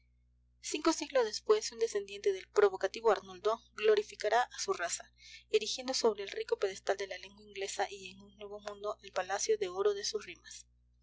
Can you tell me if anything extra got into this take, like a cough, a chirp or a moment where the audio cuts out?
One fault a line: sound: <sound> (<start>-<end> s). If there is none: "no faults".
no faults